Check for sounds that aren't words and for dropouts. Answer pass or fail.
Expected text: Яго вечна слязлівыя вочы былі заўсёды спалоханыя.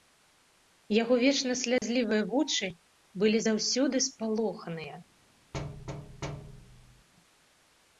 fail